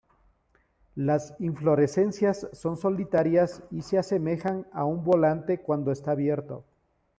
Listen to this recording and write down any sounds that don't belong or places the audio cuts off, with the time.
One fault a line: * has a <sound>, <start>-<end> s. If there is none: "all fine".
all fine